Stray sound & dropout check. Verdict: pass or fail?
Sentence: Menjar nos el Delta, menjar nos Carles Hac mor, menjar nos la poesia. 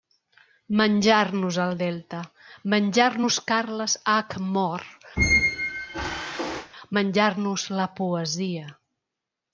fail